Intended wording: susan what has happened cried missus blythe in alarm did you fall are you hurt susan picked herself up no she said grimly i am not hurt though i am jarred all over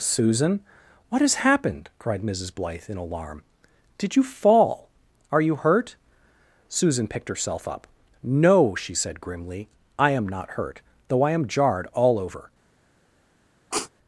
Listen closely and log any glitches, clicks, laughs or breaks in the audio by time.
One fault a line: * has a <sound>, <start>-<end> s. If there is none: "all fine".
* has a sniff, 13.7-13.9 s